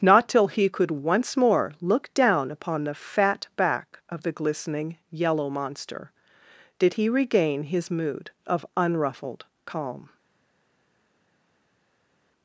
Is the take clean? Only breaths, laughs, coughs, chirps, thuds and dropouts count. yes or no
yes